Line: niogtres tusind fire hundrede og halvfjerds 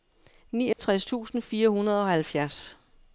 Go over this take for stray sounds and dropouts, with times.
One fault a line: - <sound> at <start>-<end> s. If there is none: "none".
- dropout at 0.7-0.8 s